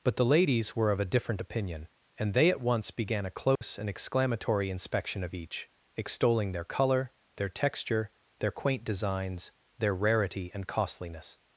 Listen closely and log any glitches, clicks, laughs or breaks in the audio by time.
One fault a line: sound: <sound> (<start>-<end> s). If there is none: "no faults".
sound: dropout (3.6-3.6 s)